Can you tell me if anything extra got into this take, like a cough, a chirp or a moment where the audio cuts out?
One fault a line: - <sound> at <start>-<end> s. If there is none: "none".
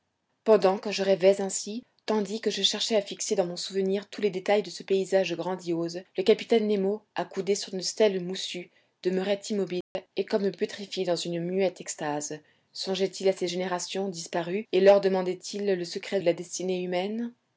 - dropout at 9.8-10.0 s